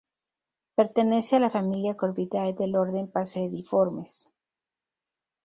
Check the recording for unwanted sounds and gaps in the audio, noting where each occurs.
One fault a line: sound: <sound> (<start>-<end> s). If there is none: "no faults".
no faults